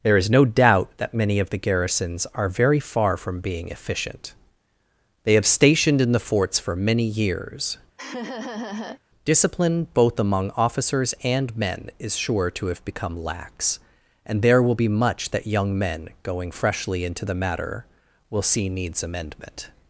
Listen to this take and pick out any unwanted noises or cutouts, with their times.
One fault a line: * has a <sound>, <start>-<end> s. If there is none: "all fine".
* has a laugh, 8.0-9.0 s